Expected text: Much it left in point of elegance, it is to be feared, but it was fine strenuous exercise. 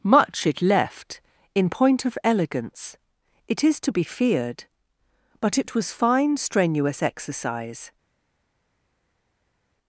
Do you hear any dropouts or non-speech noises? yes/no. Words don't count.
no